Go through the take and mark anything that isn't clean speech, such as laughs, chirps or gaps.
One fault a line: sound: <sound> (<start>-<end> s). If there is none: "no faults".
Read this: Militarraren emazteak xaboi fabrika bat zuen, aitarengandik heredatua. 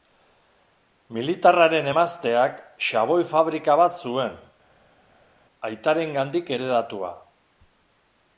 no faults